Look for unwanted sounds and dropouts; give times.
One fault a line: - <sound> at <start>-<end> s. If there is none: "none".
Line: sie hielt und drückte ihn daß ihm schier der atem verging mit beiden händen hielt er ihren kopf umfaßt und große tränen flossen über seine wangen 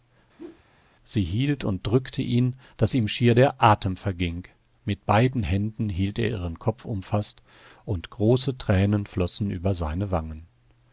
- whoosh at 0.4-0.6 s